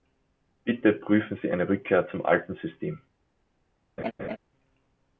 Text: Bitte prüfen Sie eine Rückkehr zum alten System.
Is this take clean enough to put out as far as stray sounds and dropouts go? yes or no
no